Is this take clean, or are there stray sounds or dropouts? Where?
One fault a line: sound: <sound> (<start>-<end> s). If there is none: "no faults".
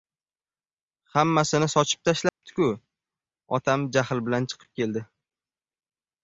sound: dropout (2.3-2.4 s)